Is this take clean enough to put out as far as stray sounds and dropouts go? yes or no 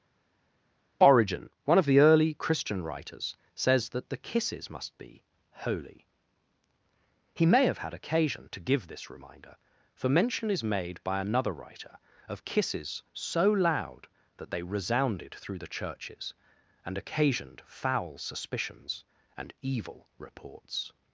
yes